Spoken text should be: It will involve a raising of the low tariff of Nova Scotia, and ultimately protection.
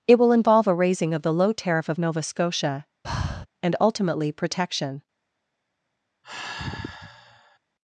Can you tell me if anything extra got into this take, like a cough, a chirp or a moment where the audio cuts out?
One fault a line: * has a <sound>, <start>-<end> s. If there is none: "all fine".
* has a breath, 3.0-3.5 s
* has a sigh, 6.2-7.6 s